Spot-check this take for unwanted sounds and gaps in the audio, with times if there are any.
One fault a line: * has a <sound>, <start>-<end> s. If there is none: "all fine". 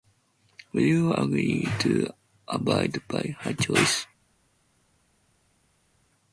all fine